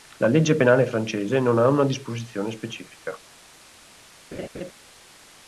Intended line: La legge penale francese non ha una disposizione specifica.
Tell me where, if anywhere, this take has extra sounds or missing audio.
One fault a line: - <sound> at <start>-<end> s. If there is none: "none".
- laugh at 4.3-4.7 s